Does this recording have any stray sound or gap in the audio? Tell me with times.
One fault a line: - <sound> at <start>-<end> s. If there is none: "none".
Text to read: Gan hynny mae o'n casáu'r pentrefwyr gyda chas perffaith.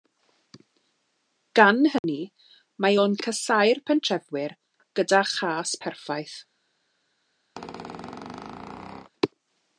- dropout at 2.0-2.0 s
- squeak at 7.6-9.1 s